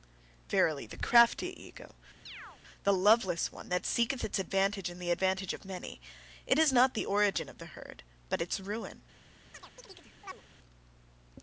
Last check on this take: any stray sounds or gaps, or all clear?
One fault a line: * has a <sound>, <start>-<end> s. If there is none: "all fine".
* has a chirp, 2.3-2.6 s
* has a chirp, 9.5-10.4 s